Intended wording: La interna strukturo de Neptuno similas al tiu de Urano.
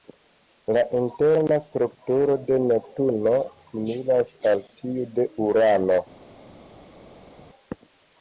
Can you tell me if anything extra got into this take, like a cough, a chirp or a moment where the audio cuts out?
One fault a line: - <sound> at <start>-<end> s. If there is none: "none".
none